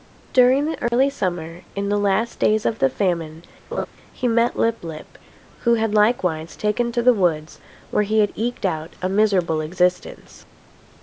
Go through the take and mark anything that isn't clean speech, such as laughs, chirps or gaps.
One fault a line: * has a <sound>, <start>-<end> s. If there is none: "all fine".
* has a dropout, 0.9-0.9 s
* has a laugh, 3.7-3.9 s